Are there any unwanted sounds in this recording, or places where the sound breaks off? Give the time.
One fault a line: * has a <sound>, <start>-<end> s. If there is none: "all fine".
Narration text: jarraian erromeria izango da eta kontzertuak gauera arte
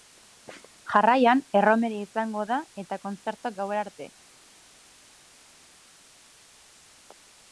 all fine